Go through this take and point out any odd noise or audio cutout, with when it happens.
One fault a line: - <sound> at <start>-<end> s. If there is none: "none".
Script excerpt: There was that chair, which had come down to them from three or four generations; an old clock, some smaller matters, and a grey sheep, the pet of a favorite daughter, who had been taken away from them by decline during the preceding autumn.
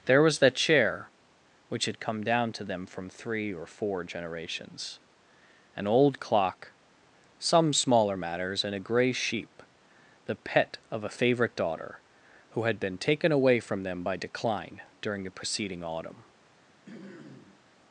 - throat clearing at 16.9-17.6 s